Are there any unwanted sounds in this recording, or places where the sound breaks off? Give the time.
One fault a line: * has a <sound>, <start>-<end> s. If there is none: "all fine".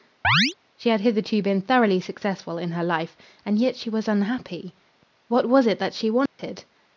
* has a chirp, 0.2-0.5 s
* has a dropout, 6.3-6.4 s